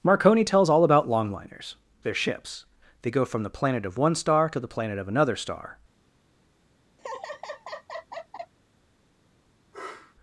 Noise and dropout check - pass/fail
fail